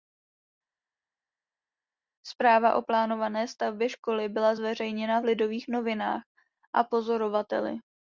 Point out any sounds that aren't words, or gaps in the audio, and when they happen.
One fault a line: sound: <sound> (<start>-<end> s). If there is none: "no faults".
no faults